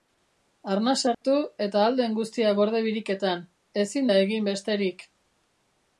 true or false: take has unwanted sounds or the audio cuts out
true